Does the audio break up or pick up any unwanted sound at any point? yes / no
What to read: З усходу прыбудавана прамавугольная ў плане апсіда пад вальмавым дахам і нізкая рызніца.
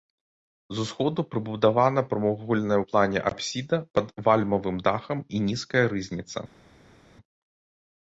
no